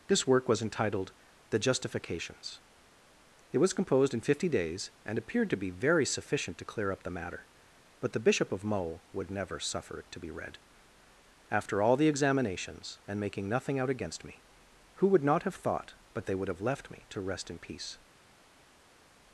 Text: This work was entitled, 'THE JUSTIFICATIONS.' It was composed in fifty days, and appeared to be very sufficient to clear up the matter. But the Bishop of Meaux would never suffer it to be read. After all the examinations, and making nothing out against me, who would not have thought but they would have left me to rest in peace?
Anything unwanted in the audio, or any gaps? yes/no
no